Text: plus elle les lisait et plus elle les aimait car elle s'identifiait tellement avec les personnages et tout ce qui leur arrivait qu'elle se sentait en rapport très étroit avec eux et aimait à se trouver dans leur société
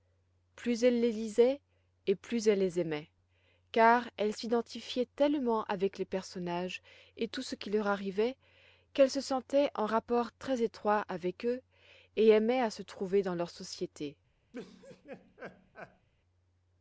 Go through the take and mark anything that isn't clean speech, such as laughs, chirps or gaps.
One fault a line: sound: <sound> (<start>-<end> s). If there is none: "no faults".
sound: laugh (14.5-16.1 s)